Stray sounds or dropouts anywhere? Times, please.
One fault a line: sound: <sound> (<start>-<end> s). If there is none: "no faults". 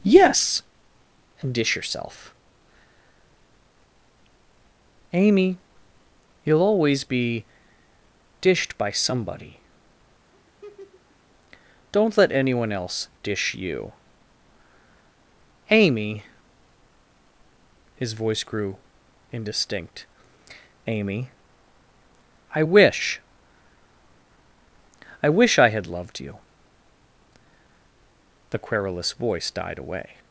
sound: laugh (10.3-11.2 s)